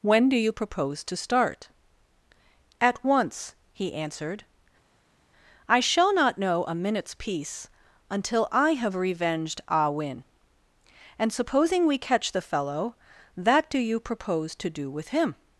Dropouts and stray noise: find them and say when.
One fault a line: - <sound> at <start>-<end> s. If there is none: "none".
none